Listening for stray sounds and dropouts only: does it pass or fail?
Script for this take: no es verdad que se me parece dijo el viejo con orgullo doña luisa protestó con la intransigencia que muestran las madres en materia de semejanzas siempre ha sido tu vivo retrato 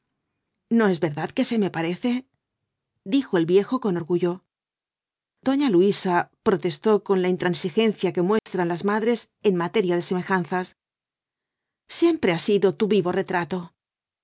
fail